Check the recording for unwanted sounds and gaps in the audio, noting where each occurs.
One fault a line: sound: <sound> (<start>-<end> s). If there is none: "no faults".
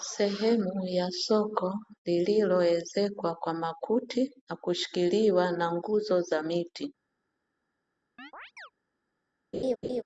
sound: chirp (8.2-8.7 s)
sound: laugh (9.5-10.0 s)